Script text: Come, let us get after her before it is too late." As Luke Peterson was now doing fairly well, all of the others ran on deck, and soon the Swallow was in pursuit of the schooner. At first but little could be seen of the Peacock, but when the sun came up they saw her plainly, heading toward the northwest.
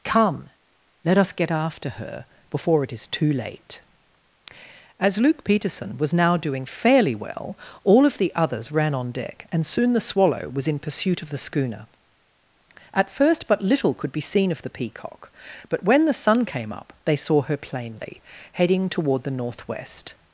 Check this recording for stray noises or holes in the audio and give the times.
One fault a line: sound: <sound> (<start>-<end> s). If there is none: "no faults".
no faults